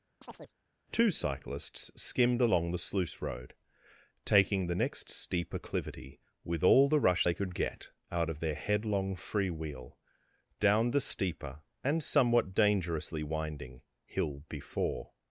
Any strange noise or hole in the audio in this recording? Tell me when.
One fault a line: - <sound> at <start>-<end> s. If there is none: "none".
- chirp at 0.2-0.5 s